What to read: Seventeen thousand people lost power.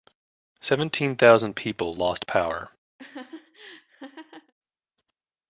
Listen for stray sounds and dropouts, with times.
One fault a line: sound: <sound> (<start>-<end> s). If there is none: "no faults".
sound: laugh (3.0-4.5 s)